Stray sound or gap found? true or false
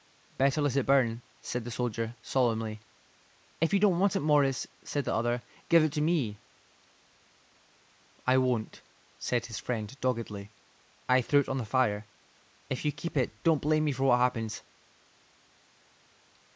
false